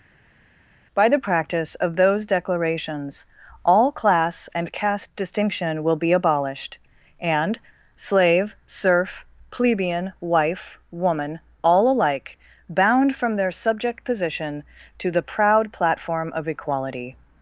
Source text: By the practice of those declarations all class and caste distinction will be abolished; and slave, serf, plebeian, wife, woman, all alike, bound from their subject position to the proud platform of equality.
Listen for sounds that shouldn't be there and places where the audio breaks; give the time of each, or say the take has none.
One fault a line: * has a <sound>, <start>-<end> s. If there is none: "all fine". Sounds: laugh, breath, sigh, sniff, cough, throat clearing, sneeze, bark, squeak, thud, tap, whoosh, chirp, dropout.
all fine